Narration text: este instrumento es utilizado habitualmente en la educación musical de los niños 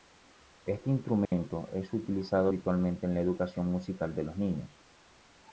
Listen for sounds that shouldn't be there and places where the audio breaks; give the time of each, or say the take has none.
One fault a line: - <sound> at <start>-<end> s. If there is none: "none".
- dropout at 1.2-1.3 s